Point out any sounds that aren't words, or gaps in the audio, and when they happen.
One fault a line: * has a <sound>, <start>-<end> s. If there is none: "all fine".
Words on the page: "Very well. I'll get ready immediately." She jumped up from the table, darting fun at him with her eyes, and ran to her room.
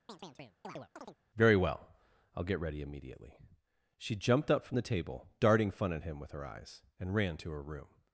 * has a chirp, 0.1-1.2 s